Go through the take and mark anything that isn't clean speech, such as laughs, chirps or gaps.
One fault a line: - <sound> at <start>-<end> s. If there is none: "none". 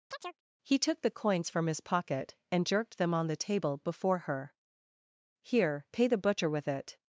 - chirp at 0.1-0.4 s